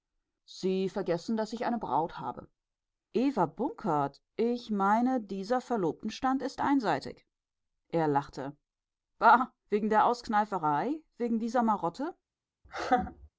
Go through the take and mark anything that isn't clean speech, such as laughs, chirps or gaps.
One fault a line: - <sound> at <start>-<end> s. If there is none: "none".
- laugh at 12.6-13.3 s